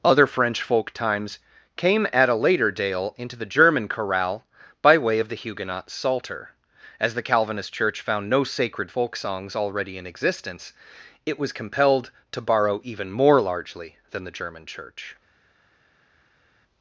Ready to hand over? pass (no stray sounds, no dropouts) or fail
pass